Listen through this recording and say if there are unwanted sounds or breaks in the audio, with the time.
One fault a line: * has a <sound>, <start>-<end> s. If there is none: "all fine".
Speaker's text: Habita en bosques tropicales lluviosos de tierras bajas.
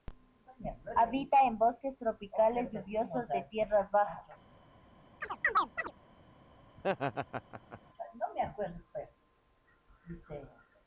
* has a chirp, 5.2-5.9 s
* has a laugh, 6.8-7.8 s